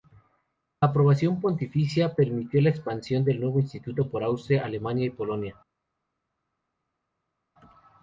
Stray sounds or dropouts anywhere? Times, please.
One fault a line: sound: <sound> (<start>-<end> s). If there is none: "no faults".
no faults